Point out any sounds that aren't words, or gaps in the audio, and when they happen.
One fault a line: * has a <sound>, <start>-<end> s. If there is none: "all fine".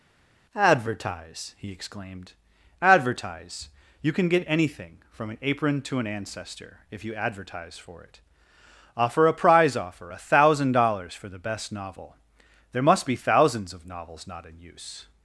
all fine